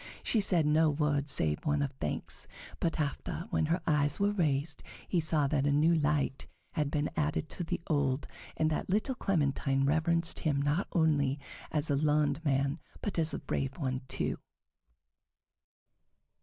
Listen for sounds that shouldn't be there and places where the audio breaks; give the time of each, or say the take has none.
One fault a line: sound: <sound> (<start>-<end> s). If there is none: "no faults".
no faults